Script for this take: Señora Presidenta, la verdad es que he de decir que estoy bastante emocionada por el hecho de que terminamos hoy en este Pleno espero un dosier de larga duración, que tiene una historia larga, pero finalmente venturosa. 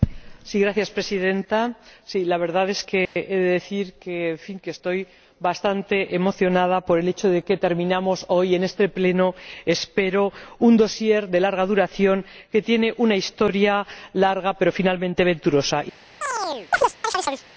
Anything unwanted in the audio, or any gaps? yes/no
yes